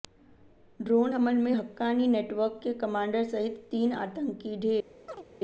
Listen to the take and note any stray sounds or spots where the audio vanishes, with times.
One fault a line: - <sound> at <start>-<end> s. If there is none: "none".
- chirp at 5.1-5.2 s